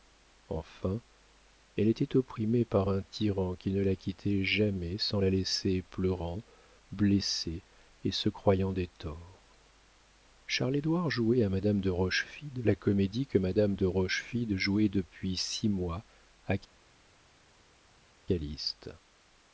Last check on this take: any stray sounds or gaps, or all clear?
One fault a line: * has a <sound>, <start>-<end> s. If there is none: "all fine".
all fine